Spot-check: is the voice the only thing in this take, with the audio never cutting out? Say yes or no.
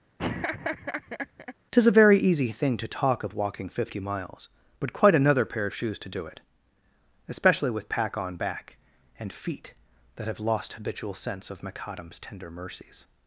no